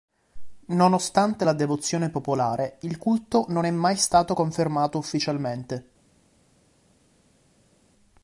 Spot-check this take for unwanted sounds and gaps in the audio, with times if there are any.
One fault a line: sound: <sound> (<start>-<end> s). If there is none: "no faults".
no faults